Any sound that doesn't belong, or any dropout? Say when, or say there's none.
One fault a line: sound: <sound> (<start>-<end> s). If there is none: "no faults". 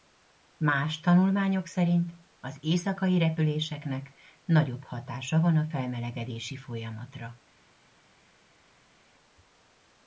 no faults